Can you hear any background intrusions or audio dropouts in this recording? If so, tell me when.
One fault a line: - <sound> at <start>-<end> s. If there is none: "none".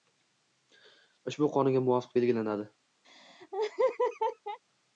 - laugh at 3.0-4.6 s